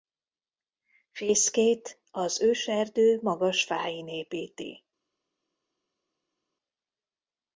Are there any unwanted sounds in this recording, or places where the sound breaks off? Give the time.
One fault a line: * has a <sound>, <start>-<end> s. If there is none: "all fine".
all fine